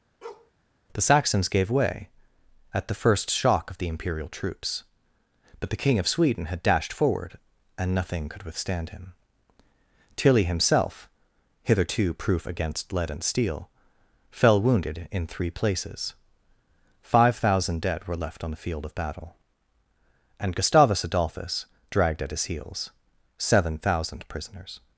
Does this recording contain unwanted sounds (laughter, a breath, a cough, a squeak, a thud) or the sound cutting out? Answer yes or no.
yes